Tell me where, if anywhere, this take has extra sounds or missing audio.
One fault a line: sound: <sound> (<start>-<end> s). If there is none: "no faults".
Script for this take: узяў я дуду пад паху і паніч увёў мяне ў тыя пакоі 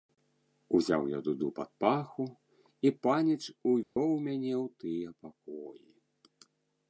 sound: dropout (3.8-4.0 s)